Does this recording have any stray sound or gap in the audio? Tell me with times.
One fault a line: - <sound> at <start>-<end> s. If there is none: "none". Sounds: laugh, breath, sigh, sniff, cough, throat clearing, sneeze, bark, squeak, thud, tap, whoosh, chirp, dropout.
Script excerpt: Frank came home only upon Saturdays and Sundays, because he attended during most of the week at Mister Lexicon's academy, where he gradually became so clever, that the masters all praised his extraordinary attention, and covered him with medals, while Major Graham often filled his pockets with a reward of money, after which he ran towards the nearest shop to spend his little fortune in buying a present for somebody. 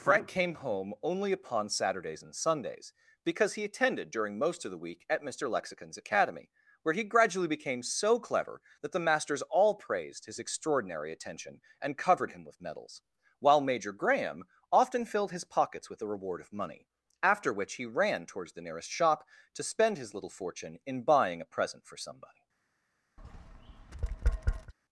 - tap at 23.2-24.7 s